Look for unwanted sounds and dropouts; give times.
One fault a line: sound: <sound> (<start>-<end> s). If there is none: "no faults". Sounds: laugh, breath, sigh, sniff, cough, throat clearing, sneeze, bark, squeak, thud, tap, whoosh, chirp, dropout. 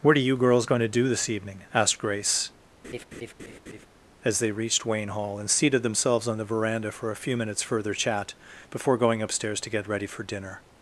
sound: laugh (2.8-3.9 s)